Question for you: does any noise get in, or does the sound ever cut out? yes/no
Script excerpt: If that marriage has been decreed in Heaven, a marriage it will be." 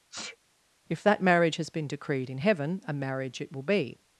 yes